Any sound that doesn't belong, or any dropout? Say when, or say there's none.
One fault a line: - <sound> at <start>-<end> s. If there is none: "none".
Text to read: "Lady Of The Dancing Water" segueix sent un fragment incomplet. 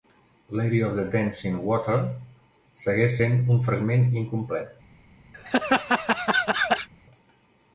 - laugh at 5.3-6.9 s